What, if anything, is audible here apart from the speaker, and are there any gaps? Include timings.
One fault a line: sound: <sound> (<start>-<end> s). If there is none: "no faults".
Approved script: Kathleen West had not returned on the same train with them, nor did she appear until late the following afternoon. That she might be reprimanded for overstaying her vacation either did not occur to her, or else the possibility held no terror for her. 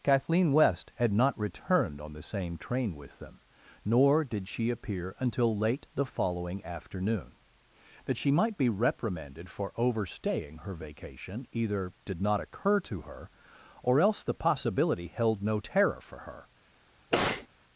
sound: sneeze (17.1-17.5 s)